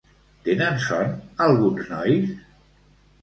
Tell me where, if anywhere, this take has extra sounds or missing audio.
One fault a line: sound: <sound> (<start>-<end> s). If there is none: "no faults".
no faults